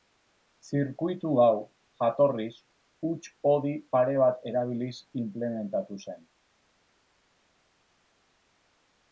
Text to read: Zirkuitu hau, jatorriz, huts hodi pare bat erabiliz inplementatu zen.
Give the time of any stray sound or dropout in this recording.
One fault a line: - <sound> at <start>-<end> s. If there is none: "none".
none